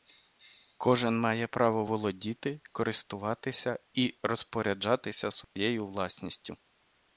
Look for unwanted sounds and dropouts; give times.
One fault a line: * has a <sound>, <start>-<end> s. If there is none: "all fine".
* has a dropout, 5.4-5.6 s